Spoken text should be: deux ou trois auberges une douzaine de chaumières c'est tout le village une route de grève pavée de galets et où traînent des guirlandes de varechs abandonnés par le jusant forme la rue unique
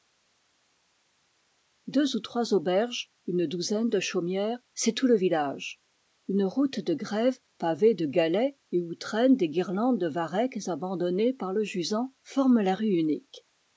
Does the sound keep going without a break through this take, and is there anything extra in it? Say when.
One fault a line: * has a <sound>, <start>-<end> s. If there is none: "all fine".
all fine